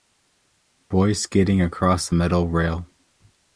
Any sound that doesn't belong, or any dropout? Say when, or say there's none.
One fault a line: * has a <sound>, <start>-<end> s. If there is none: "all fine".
all fine